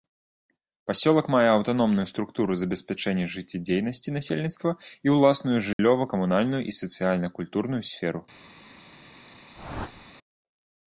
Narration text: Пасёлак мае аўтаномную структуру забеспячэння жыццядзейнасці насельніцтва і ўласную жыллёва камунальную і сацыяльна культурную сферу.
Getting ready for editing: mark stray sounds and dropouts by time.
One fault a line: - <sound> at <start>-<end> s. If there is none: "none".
- dropout at 5.7-5.8 s
- whoosh at 9.5-10.1 s